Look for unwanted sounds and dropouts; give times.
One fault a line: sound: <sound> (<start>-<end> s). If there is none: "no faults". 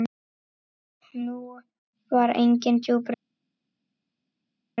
no faults